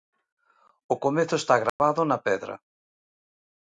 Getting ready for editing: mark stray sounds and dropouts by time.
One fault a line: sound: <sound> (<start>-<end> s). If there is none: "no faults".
sound: dropout (1.7-1.8 s)